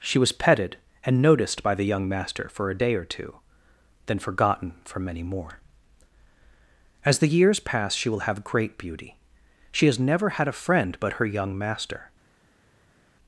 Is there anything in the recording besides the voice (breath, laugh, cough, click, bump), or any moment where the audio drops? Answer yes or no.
no